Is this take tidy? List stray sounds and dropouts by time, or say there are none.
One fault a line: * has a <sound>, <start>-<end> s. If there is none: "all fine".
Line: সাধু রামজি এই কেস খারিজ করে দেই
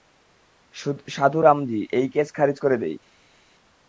all fine